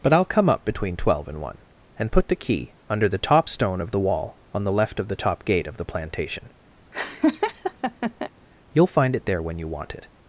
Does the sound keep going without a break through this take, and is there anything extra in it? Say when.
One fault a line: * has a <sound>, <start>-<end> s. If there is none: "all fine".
* has a laugh, 6.9-8.3 s